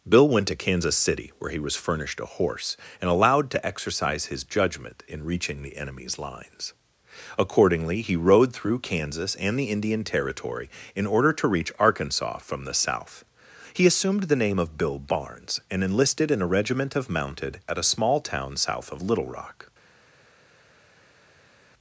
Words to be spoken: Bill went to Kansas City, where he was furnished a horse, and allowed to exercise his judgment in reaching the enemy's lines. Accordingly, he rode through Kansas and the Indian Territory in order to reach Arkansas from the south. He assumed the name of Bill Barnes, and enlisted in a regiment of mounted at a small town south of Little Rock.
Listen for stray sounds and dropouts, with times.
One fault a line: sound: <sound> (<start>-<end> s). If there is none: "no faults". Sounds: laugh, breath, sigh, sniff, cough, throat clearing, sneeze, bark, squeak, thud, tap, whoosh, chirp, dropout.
no faults